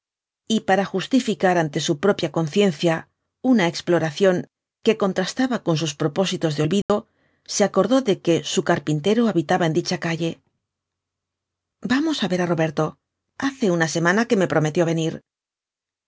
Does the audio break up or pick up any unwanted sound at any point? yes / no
yes